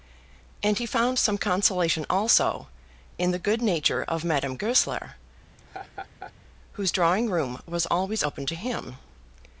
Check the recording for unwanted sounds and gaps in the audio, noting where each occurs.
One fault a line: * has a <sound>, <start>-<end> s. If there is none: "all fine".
* has a laugh, 5.6-6.3 s